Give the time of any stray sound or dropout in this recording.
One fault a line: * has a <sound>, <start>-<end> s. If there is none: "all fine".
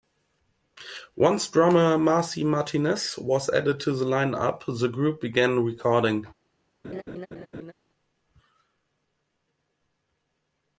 * has a laugh, 6.8-7.7 s